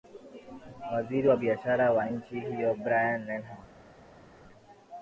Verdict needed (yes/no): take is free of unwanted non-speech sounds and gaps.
yes